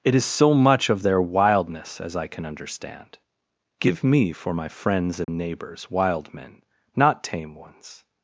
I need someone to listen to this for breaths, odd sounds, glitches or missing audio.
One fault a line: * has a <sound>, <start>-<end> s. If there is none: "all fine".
* has a dropout, 5.2-5.3 s